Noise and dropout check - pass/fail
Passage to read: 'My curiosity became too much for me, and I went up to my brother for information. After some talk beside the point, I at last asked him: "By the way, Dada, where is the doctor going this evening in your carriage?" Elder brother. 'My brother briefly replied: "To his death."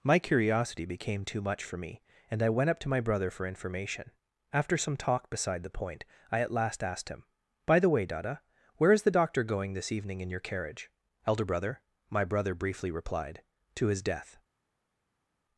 pass